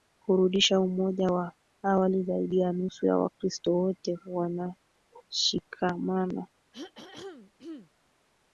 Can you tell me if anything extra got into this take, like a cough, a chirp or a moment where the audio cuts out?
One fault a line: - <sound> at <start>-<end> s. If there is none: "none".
- throat clearing at 6.7-7.9 s